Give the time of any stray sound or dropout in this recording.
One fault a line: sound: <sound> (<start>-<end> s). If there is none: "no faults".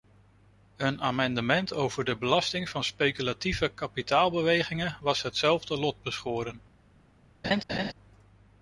sound: laugh (7.4-7.9 s)